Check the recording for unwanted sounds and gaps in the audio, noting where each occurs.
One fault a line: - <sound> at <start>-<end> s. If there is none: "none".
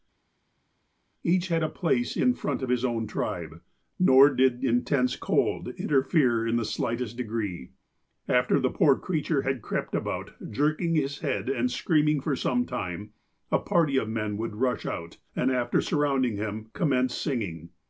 none